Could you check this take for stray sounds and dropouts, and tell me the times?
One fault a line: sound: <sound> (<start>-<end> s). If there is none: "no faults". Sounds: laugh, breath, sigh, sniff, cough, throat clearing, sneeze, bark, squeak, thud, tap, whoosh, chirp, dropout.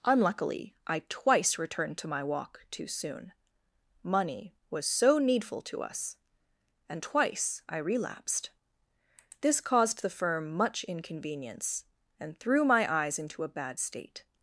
no faults